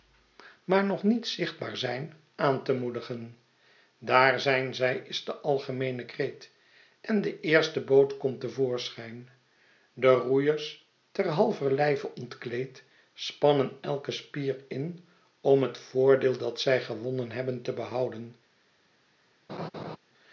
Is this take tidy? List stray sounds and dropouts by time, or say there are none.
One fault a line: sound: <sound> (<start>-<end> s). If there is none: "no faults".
sound: laugh (19.5-20.0 s)